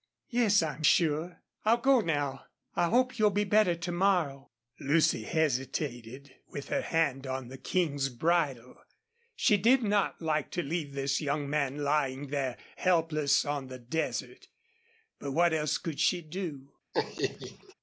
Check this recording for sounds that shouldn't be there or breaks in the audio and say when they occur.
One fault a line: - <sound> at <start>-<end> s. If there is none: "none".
- laugh at 16.9-17.7 s